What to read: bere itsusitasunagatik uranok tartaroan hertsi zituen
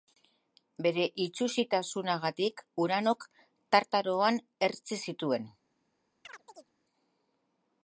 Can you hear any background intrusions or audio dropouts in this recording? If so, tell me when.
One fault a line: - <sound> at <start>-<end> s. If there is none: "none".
- chirp at 6.2-6.7 s